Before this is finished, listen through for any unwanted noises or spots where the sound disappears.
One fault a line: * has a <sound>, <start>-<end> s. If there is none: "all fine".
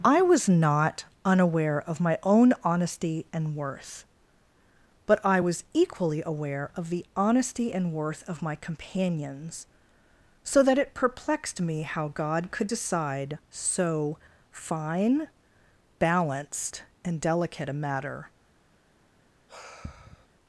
* has a sigh, 19.5-20.3 s